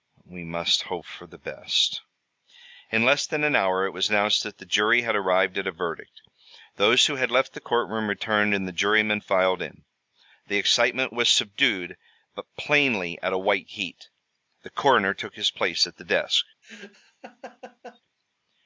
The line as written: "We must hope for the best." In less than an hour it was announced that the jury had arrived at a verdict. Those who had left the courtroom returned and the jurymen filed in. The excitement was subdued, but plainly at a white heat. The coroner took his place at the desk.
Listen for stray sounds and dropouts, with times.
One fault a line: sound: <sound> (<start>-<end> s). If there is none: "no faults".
sound: laugh (16.6-18.0 s)